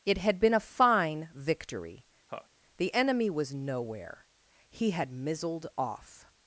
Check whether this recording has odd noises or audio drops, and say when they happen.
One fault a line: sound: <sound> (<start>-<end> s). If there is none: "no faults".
sound: laugh (2.3-2.5 s)